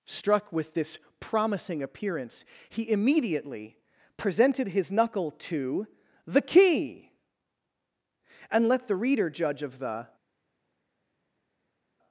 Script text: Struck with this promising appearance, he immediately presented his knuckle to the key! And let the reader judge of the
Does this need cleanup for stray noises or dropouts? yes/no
no